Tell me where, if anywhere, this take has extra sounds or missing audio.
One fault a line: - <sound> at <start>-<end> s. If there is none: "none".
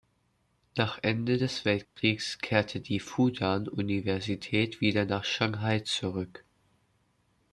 - dropout at 1.8-2.0 s